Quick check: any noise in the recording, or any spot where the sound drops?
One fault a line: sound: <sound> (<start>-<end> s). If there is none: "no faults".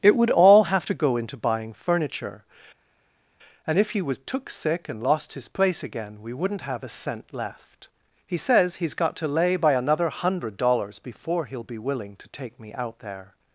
no faults